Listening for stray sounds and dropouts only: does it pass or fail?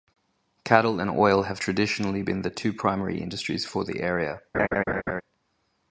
fail